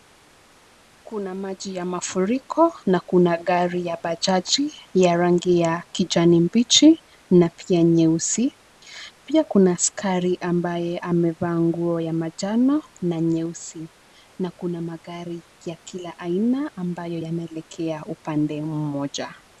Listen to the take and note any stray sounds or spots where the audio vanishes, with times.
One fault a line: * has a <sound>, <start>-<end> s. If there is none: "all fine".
all fine